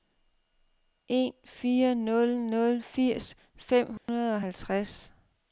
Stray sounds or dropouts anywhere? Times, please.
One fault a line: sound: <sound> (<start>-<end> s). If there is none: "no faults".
sound: dropout (4.0-4.1 s)